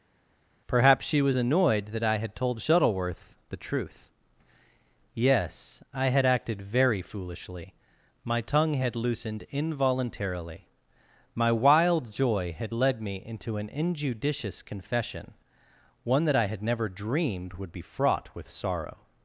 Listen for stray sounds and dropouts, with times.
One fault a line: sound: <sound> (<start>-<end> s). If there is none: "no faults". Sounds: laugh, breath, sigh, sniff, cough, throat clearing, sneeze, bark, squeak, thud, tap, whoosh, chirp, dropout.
no faults